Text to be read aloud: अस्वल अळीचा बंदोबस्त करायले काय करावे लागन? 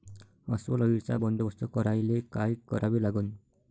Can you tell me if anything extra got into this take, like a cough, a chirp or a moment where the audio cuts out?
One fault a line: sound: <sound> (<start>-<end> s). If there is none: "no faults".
no faults